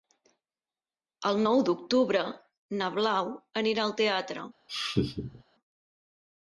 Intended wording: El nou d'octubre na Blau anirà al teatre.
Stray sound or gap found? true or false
true